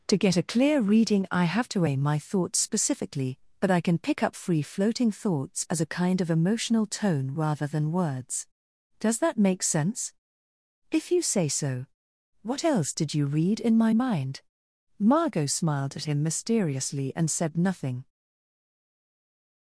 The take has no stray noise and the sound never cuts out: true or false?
true